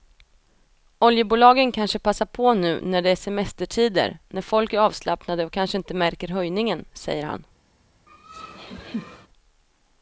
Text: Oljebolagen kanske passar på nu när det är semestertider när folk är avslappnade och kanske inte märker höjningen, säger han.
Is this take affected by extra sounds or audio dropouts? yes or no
yes